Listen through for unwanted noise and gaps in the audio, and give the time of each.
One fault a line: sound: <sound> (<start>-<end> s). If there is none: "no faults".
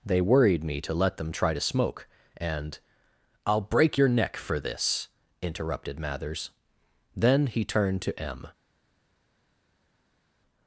no faults